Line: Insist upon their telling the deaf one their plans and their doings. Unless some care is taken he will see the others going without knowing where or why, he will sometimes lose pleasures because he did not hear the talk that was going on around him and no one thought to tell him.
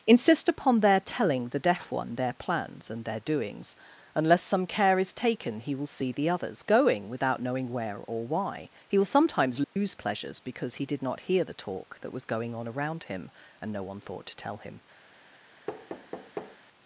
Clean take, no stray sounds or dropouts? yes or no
no